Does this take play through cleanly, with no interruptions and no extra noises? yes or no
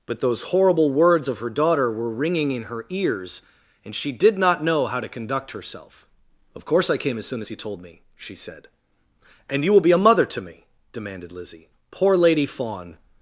yes